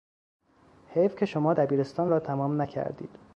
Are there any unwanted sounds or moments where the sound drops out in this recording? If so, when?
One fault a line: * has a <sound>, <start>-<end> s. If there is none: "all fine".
all fine